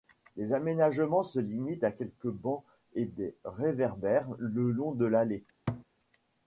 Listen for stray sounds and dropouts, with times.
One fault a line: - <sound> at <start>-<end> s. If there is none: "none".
- thud at 5.7-5.8 s